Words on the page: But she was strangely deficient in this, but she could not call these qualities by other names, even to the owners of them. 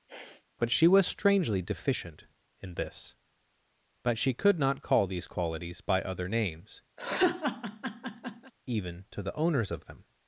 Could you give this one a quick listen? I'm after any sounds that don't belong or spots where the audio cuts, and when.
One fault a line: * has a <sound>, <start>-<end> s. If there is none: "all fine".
* has a sniff, 0.1-0.5 s
* has a laugh, 7.0-8.5 s